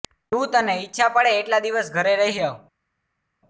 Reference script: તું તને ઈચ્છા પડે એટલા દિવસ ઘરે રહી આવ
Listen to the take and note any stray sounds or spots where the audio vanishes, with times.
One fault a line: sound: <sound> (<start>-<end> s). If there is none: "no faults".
no faults